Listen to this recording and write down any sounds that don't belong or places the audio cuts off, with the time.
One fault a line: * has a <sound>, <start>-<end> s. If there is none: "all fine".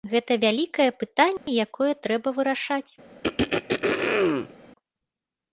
* has a dropout, 1.4-1.5 s
* has a throat clearing, 3.2-4.5 s